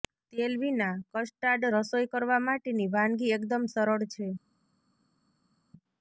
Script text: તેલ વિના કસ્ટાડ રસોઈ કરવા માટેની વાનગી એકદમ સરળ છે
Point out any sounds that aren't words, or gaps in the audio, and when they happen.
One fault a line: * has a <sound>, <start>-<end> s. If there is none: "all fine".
all fine